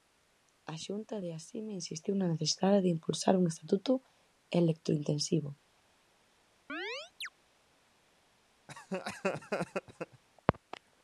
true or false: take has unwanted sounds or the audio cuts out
true